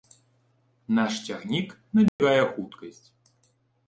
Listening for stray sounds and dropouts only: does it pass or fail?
fail